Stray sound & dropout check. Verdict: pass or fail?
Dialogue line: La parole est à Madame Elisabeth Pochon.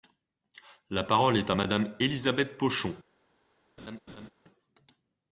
fail